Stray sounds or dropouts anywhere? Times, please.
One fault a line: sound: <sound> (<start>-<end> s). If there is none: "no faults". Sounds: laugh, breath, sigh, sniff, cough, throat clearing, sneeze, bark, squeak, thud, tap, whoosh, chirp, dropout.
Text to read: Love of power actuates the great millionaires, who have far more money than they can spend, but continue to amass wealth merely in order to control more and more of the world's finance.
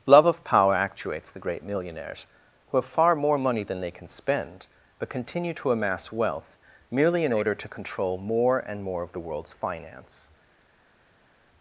no faults